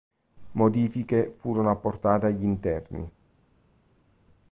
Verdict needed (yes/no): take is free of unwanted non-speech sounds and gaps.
yes